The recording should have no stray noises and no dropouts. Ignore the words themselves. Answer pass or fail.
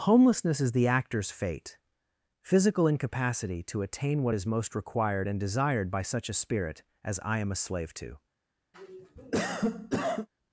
fail